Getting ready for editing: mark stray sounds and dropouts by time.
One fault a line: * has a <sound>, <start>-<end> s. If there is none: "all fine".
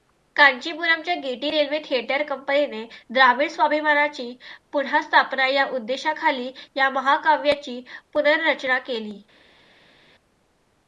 all fine